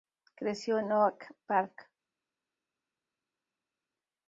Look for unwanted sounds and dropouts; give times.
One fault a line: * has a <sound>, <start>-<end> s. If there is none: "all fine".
all fine